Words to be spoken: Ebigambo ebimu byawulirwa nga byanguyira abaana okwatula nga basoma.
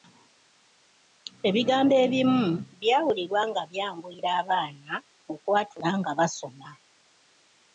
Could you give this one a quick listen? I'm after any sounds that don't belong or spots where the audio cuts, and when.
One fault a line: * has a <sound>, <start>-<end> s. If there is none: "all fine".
all fine